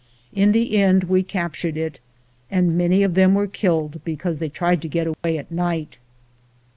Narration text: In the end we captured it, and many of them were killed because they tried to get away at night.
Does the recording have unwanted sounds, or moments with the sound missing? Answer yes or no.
yes